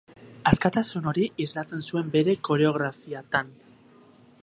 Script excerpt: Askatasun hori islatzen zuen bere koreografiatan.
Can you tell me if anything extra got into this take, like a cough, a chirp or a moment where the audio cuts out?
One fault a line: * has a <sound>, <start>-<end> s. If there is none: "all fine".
all fine